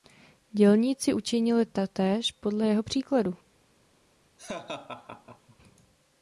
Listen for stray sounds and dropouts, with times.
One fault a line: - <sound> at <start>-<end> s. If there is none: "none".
- laugh at 4.4-5.6 s